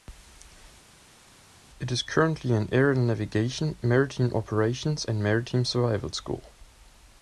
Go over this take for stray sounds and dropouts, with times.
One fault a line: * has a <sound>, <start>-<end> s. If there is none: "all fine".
all fine